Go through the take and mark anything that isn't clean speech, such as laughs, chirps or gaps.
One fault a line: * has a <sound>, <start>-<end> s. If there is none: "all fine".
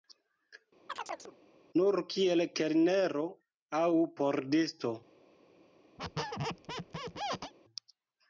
* has a chirp, 0.9-1.4 s
* has a squeak, 6.0-7.5 s